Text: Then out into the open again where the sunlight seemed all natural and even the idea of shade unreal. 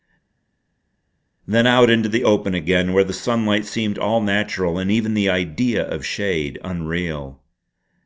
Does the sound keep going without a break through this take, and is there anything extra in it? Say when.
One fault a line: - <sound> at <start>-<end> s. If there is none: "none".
none